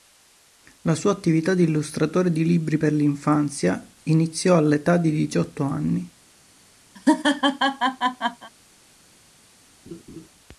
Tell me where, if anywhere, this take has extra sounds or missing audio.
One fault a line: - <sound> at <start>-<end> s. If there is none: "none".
- laugh at 7.0-8.5 s
- laugh at 9.9-10.3 s